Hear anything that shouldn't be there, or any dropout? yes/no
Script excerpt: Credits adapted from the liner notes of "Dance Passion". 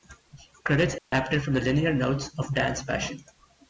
yes